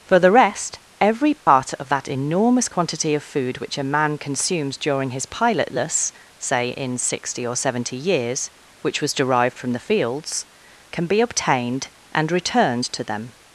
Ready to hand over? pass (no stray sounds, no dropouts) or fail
fail